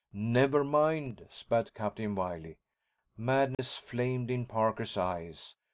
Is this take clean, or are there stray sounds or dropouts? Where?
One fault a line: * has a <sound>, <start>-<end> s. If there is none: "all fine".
* has a dropout, 3.5-3.6 s